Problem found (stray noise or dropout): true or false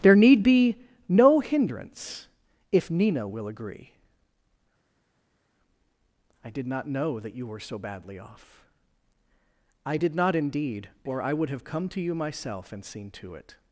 false